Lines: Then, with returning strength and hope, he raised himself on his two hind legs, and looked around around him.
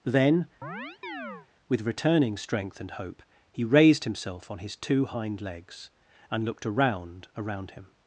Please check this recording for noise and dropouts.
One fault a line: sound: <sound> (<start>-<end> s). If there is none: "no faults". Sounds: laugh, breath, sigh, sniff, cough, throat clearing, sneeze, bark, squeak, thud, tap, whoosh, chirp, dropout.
sound: chirp (0.6-1.5 s)